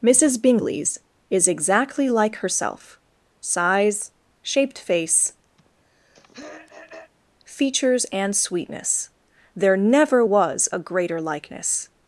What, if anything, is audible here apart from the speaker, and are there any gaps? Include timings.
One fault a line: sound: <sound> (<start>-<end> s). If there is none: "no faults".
sound: throat clearing (5.6-7.1 s)